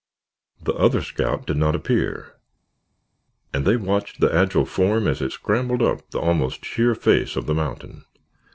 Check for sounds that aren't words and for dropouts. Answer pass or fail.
pass